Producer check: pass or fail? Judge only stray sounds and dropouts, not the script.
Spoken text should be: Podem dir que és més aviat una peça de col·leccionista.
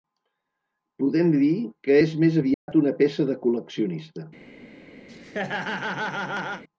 fail